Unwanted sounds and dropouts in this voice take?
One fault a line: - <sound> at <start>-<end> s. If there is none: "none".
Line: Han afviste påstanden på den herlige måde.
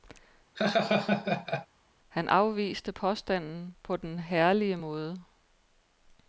- laugh at 0.5-1.7 s